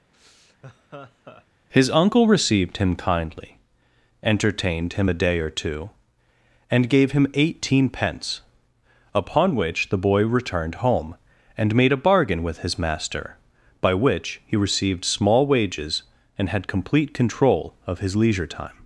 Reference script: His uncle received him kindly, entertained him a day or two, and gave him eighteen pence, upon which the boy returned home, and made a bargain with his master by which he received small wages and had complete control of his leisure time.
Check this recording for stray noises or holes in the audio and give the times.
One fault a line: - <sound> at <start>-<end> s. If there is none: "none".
- laugh at 0.1-1.5 s